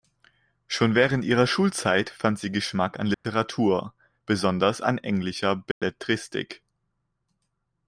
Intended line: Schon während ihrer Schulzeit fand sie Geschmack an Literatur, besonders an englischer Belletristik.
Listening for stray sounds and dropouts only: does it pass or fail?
fail